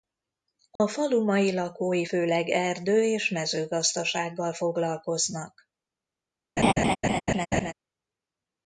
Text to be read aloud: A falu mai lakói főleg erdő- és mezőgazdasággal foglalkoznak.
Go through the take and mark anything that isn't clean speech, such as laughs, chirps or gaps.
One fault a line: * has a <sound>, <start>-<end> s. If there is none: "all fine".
* has a dropout, 0.8-0.8 s
* has a laugh, 6.6-7.7 s